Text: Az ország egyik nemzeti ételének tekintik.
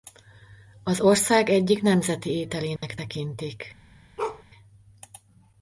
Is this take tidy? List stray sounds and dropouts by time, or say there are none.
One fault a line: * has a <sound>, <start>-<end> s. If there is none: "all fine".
* has a dropout, 2.8-2.8 s
* has a bark, 4.2-4.4 s